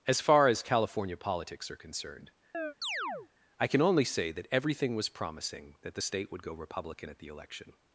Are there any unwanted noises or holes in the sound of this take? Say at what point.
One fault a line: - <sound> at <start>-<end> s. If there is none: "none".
- chirp at 2.5-3.3 s